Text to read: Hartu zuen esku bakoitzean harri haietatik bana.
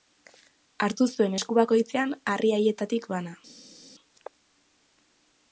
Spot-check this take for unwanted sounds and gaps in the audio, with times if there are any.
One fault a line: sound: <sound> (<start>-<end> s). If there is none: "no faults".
no faults